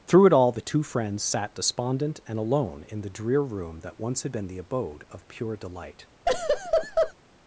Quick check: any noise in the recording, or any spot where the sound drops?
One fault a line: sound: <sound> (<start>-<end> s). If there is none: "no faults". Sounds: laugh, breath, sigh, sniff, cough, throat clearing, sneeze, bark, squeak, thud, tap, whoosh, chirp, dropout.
sound: laugh (6.3-7.1 s)